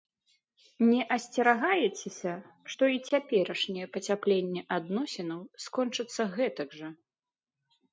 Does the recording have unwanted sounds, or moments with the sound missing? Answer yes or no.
no